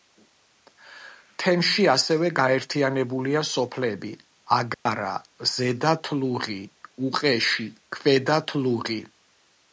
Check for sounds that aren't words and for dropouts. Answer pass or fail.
fail